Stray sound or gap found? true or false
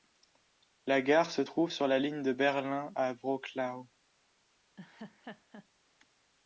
true